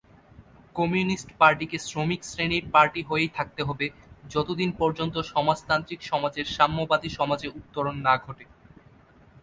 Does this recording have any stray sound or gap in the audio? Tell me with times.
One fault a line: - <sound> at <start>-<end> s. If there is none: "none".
none